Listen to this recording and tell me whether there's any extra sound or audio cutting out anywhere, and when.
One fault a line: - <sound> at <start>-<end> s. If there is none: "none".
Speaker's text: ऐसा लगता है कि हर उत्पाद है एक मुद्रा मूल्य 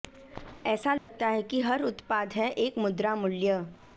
- dropout at 1.0-1.1 s